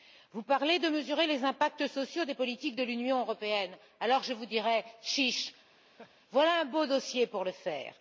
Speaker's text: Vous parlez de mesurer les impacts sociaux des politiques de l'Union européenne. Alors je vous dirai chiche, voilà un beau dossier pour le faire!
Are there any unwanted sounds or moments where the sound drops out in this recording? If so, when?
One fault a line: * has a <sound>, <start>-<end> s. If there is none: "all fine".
* has a laugh, 5.8-6.2 s